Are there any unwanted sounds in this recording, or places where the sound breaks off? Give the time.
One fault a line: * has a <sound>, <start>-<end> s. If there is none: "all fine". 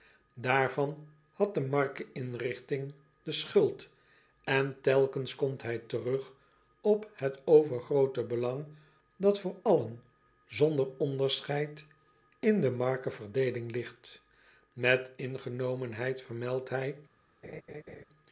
* has a laugh, 17.4-18.0 s